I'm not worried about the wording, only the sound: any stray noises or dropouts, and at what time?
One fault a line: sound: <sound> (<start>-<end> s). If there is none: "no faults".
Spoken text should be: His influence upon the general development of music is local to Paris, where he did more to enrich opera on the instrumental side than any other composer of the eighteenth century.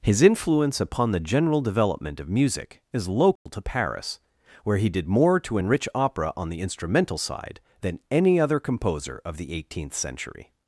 sound: dropout (3.4-3.5 s)